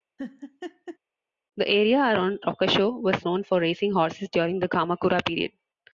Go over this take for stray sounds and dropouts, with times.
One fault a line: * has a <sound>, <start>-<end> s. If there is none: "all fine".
* has a laugh, 0.2-1.0 s